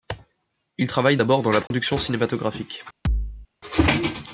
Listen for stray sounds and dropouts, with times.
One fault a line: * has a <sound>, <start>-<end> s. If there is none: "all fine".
* has a dropout, 1.7-1.7 s
* has a thud, 3.0-3.5 s